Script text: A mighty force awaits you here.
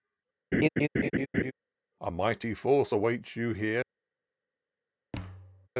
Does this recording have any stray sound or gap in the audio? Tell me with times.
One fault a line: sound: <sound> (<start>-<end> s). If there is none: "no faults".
sound: laugh (0.5-1.5 s)
sound: thud (5.1-5.7 s)